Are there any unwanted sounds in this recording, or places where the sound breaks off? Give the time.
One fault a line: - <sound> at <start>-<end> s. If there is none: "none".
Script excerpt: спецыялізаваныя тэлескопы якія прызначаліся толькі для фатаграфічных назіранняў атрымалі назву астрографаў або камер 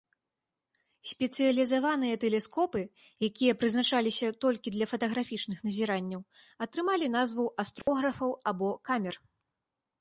- dropout at 7.8-7.9 s